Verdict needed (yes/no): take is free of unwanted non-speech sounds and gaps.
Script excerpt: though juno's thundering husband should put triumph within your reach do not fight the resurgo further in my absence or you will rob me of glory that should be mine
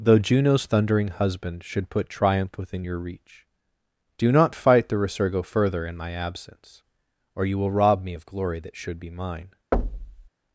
no